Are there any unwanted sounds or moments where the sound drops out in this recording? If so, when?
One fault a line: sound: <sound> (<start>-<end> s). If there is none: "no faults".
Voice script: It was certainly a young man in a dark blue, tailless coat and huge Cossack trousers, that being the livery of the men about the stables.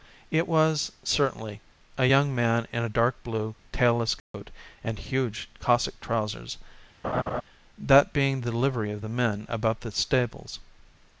sound: dropout (4.2-4.3 s)
sound: laugh (7.0-7.4 s)